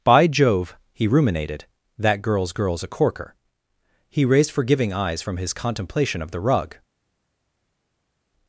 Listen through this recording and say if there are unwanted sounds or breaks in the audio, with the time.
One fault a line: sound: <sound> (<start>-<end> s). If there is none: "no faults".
no faults